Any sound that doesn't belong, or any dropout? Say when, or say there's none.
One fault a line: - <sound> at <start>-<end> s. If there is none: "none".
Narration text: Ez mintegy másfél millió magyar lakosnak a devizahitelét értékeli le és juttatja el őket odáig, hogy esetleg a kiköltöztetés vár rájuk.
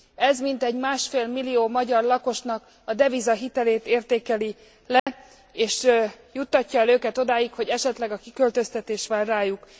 - dropout at 5.0-5.1 s